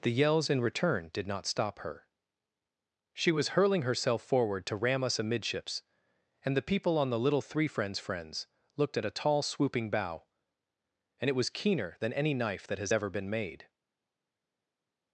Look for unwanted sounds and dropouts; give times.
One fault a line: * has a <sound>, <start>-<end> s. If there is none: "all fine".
all fine